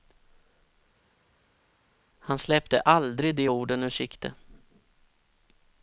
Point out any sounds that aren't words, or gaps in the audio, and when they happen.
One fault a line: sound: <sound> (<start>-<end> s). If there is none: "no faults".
no faults